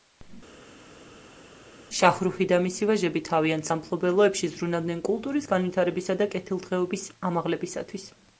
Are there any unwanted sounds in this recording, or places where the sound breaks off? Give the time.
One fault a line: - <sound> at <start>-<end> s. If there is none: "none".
none